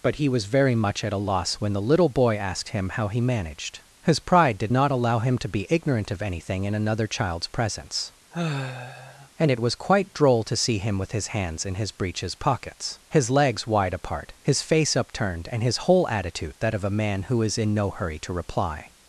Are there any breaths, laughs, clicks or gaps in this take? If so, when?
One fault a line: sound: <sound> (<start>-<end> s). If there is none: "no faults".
sound: sigh (8.3-9.3 s)